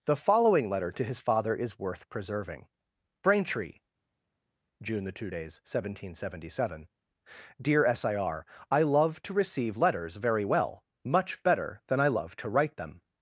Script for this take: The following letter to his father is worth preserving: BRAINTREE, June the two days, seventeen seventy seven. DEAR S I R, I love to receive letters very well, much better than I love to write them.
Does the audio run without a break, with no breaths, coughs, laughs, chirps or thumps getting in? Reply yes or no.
yes